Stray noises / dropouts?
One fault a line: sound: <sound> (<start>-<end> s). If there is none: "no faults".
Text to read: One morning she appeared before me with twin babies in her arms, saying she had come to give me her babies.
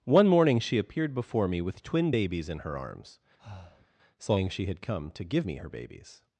sound: breath (3.4-3.9 s)